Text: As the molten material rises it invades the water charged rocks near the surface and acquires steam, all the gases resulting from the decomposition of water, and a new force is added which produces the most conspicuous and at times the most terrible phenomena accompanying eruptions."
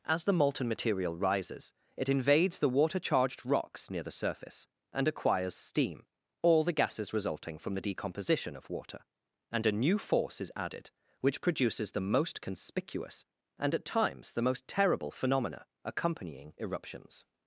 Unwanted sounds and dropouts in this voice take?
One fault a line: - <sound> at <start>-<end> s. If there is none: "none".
none